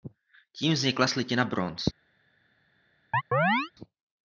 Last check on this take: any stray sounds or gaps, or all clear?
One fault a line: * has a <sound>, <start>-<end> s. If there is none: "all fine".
* has a chirp, 3.1-3.7 s